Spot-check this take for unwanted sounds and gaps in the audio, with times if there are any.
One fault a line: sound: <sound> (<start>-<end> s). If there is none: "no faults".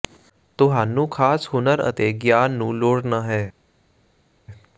no faults